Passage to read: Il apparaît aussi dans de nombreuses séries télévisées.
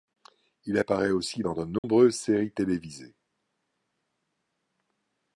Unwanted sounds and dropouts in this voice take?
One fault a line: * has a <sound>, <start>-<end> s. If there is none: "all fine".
* has a dropout, 1.8-1.8 s